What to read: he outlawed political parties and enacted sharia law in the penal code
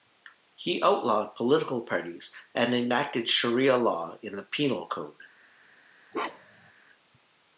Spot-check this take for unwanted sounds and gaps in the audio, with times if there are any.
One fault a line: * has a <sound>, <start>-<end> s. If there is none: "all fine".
* has a bark, 6.1-6.7 s